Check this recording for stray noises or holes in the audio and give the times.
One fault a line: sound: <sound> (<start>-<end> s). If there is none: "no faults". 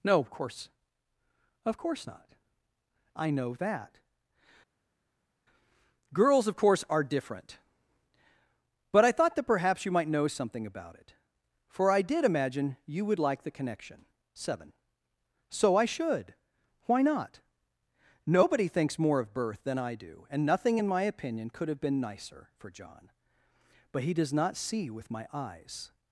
no faults